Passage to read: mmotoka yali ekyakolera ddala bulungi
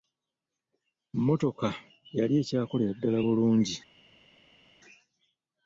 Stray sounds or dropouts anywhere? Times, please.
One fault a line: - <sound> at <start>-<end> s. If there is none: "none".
none